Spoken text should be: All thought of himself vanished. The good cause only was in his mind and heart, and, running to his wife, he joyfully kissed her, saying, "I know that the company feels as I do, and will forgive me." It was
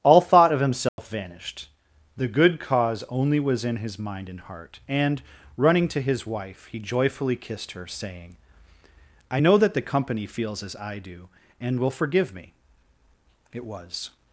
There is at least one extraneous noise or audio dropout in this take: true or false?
true